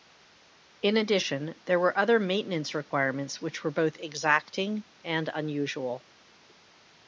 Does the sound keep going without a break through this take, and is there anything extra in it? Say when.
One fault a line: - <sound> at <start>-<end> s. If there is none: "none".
none